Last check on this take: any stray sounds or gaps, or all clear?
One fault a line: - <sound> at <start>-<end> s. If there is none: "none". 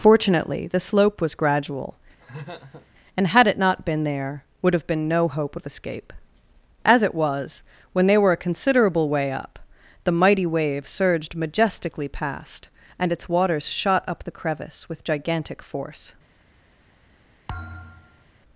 - laugh at 2.2-2.9 s
- thud at 17.5-18.2 s